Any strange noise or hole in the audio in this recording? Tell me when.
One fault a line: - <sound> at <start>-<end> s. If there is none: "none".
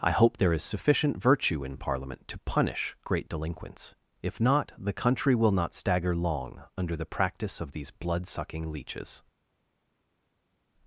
none